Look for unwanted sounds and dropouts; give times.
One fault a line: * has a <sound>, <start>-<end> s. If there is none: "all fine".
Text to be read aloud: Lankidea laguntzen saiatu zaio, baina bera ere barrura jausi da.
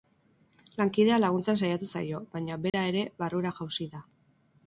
* has a dropout, 2.7-2.7 s